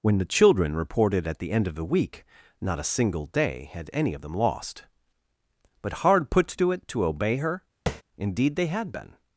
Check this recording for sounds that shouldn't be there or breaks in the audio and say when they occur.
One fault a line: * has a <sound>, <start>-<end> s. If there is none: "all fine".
* has a tap, 7.9-8.0 s